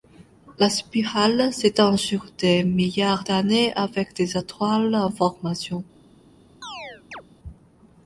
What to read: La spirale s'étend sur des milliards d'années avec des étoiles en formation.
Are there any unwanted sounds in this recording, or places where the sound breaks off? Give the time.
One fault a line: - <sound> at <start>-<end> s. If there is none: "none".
- chirp at 6.6-7.2 s